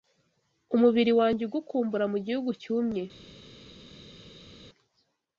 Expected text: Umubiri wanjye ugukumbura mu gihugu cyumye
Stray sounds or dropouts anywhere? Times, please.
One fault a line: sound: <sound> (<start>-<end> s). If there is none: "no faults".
no faults